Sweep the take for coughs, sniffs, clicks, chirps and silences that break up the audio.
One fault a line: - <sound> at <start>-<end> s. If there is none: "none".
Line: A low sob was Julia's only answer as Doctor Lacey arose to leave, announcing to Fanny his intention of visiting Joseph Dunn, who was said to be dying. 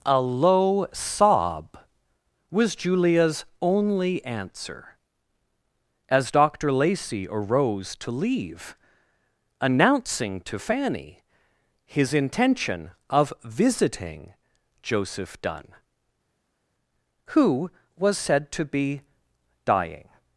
none